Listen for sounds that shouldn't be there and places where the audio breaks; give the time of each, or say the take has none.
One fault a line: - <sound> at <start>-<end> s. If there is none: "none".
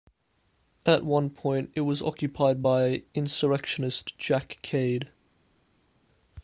none